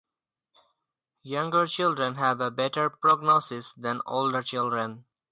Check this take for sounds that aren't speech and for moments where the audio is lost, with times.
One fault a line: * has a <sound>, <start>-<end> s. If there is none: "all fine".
all fine